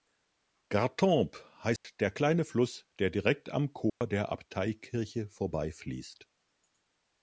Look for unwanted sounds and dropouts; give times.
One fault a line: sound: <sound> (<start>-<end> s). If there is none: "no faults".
sound: dropout (1.8-1.8 s)
sound: dropout (3.9-4.0 s)